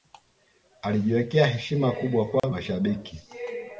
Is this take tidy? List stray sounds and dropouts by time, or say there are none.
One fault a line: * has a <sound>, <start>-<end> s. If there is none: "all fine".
* has a dropout, 2.4-2.4 s